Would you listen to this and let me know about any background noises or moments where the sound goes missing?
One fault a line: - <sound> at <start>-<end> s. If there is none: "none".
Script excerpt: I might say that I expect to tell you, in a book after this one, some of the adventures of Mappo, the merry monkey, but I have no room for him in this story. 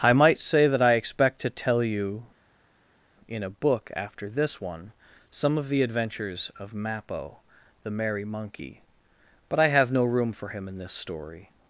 none